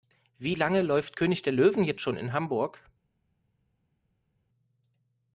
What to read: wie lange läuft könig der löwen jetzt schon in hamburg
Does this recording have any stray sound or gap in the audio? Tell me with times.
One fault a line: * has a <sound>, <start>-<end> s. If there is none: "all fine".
all fine